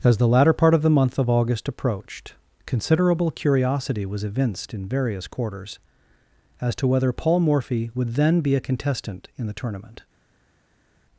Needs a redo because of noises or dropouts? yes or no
no